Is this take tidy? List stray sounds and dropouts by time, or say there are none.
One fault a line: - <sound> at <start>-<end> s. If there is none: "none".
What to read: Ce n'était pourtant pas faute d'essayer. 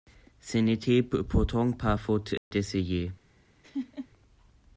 - dropout at 2.4-2.5 s
- laugh at 3.6-4.1 s